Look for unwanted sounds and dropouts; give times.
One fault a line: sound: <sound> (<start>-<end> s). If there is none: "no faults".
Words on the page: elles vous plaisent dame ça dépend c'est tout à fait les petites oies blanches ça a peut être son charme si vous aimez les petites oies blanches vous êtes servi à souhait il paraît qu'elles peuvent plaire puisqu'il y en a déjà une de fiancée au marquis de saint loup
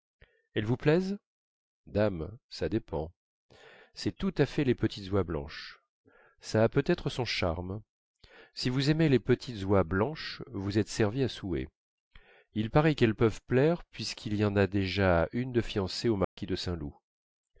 sound: dropout (16.2-16.4 s)